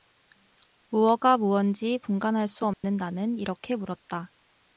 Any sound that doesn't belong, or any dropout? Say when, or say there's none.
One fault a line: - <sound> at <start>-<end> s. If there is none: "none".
- dropout at 2.7-2.8 s